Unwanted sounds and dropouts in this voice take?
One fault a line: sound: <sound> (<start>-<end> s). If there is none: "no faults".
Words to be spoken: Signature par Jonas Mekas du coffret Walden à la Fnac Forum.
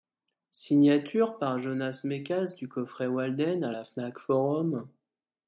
no faults